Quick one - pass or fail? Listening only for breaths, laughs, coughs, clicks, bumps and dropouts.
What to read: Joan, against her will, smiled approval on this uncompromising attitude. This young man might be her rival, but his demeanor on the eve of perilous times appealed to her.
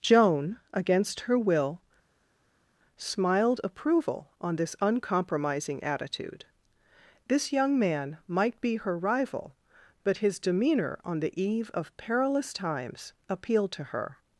pass